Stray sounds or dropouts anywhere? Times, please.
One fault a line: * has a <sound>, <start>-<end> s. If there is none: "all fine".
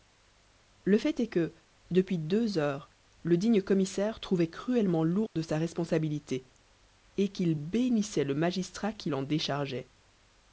* has a dropout, 5.3-5.4 s